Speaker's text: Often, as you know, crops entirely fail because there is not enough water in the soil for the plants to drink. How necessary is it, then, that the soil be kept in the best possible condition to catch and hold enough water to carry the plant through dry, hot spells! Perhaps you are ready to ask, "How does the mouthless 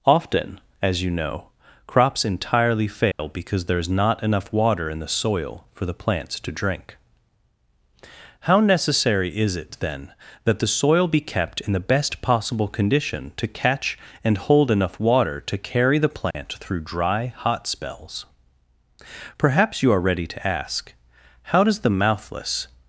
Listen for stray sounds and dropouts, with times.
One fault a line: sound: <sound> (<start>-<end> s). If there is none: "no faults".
sound: dropout (3.1-3.2 s)
sound: dropout (16.3-16.3 s)